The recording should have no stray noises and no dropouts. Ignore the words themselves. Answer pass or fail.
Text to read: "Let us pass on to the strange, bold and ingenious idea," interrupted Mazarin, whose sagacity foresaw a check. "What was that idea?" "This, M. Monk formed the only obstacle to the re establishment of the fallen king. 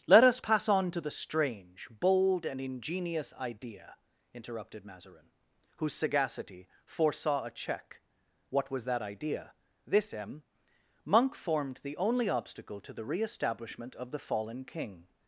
pass